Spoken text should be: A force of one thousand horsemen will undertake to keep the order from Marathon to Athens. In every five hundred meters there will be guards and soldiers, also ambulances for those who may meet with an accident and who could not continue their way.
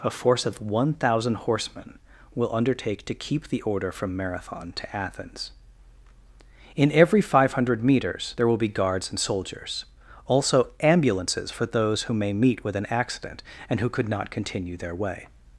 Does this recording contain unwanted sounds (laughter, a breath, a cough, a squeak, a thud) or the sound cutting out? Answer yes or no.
no